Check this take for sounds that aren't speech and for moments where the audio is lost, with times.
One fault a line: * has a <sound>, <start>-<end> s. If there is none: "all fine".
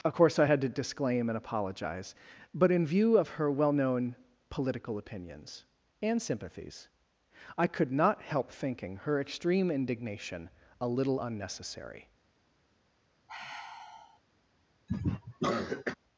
* has a sigh, 13.3-14.2 s
* has a cough, 14.9-15.9 s